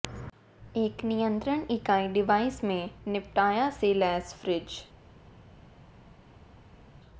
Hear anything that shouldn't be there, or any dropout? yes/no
no